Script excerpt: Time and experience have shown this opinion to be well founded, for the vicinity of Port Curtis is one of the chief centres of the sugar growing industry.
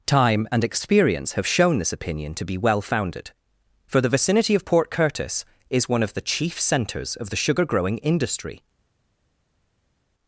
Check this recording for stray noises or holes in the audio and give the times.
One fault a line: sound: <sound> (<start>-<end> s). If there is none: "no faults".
no faults